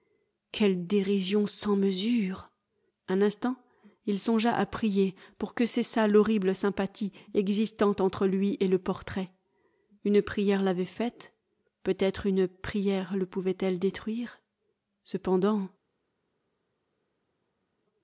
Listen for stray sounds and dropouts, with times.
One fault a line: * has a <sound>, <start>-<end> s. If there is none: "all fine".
all fine